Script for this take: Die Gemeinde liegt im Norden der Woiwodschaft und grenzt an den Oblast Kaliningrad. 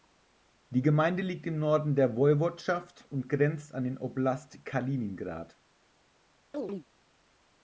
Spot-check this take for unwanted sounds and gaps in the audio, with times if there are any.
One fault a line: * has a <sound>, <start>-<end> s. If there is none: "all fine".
* has a chirp, 6.5-6.8 s